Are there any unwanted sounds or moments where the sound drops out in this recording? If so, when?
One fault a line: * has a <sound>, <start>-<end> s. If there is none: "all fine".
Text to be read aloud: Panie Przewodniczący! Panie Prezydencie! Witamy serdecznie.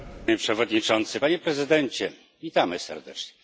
all fine